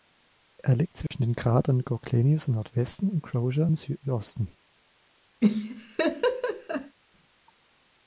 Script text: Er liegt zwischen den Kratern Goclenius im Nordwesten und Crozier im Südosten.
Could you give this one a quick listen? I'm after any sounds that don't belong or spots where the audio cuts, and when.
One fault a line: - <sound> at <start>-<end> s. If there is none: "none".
- dropout at 1.1-1.1 s
- laugh at 5.4-7.0 s